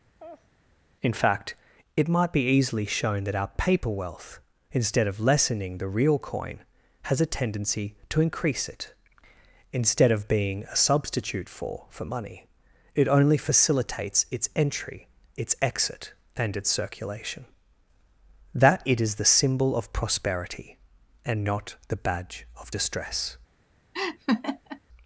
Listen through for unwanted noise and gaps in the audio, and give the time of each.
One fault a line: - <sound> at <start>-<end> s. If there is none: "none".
- laugh at 0.2-0.5 s
- laugh at 23.9-24.8 s